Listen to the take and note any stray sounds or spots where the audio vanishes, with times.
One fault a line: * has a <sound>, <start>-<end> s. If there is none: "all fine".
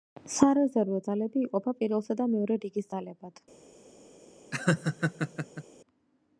* has a laugh, 4.5-5.6 s